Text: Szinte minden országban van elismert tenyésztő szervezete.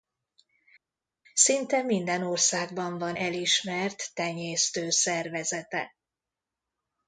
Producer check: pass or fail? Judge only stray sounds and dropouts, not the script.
pass